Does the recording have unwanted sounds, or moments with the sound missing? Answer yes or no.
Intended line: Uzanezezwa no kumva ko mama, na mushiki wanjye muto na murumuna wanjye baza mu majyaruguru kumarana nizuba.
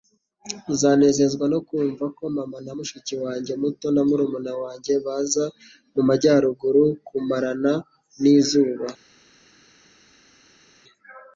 no